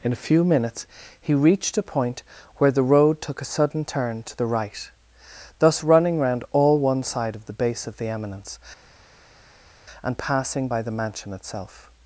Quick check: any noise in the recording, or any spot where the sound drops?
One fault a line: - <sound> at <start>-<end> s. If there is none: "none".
none